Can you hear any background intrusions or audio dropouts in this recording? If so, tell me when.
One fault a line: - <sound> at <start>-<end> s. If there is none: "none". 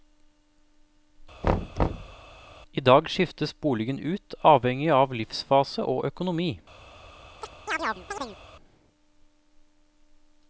- thud at 1.4-2.2 s
- chirp at 7.4-8.4 s